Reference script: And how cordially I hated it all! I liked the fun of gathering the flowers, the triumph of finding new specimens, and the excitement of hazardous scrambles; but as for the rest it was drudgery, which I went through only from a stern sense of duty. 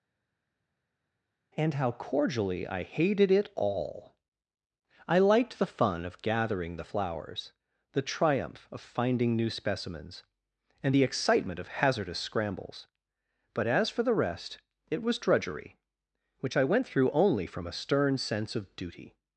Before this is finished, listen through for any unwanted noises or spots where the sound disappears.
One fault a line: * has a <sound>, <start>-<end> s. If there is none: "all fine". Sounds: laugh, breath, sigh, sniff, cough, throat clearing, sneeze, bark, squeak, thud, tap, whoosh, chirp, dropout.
all fine